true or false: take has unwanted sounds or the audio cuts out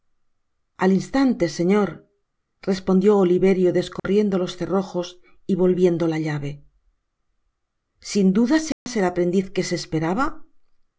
true